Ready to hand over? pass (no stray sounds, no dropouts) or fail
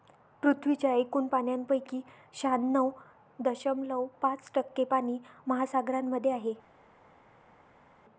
pass